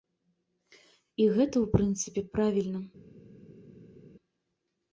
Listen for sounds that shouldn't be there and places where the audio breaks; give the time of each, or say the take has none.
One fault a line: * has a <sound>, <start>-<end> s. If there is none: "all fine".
all fine